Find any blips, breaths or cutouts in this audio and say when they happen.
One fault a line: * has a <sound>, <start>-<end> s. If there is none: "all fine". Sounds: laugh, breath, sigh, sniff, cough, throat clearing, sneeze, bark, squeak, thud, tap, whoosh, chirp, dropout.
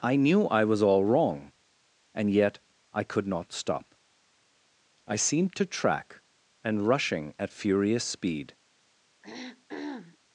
* has a throat clearing, 9.2-10.2 s